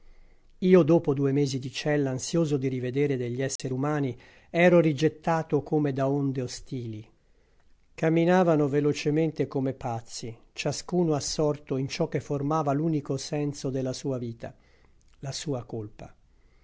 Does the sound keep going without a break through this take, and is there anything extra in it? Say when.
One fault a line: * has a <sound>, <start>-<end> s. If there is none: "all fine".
* has a dropout, 3.6-3.6 s